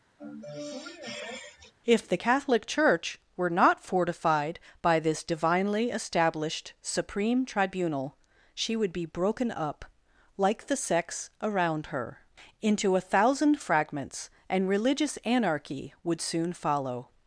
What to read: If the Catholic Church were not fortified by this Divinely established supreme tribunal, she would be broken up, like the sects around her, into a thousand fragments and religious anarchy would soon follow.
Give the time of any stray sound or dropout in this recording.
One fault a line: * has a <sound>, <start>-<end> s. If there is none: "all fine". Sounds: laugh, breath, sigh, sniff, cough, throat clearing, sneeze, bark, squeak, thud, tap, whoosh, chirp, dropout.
* has a sniff, 0.2-1.7 s